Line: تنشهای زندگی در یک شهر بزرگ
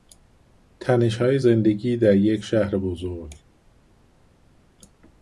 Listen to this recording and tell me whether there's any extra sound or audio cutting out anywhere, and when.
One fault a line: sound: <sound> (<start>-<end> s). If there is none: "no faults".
no faults